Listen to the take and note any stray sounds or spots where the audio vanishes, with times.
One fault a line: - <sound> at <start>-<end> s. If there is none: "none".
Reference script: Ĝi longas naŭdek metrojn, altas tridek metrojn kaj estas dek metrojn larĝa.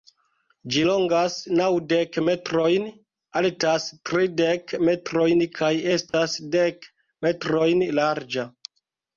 - dropout at 6.1-6.1 s